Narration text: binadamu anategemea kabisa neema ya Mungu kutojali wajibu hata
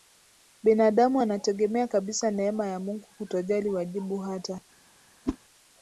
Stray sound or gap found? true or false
true